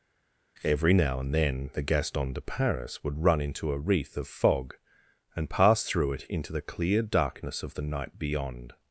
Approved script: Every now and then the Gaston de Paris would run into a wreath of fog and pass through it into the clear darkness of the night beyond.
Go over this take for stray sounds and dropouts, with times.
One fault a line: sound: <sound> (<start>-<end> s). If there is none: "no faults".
no faults